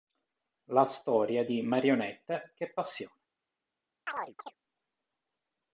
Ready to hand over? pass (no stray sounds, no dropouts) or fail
fail